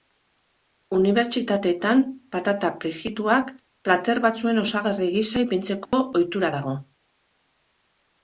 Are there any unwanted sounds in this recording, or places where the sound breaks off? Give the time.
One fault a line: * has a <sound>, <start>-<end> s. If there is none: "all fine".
* has a dropout, 5.9-5.9 s